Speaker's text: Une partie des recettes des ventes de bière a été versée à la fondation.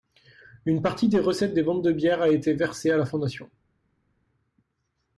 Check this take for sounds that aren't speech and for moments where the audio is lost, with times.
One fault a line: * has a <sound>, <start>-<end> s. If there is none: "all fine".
all fine